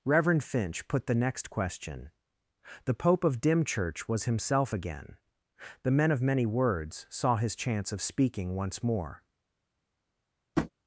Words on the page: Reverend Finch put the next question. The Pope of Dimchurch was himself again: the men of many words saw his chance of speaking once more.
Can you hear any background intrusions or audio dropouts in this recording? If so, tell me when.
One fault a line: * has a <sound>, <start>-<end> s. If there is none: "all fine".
* has a tap, 10.6-10.7 s